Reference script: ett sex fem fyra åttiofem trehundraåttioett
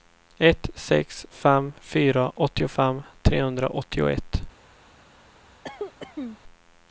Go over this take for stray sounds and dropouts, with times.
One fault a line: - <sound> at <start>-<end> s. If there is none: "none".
- cough at 5.6-6.4 s